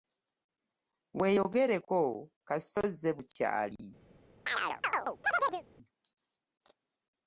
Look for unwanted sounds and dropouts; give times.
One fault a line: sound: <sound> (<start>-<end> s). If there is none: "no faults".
sound: chirp (4.5-5.6 s)